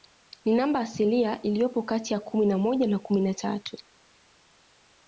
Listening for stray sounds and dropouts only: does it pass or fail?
pass